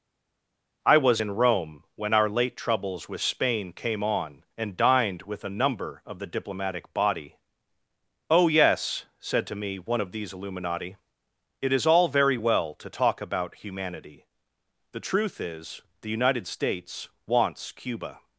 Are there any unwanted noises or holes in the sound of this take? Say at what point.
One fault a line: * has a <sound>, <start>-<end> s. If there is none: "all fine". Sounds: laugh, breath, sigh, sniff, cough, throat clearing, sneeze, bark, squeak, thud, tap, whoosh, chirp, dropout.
all fine